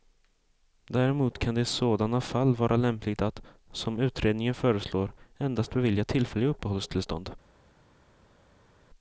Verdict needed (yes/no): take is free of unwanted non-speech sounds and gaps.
yes